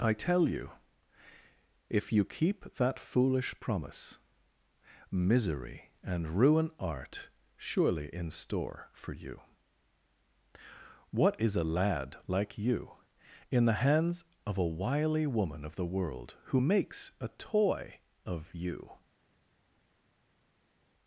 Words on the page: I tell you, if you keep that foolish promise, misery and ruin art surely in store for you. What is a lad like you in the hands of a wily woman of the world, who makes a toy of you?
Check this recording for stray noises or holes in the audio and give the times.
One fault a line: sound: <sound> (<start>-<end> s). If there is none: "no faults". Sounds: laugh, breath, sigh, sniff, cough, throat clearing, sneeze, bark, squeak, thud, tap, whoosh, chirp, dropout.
no faults